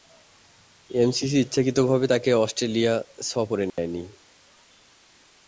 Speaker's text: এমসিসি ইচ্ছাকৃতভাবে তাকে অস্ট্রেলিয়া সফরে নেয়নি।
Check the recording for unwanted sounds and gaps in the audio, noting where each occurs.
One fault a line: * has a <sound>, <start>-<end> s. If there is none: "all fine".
* has a dropout, 3.7-3.8 s